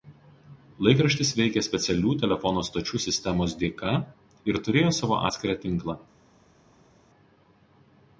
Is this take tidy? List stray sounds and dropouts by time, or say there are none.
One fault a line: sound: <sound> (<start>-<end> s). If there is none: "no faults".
no faults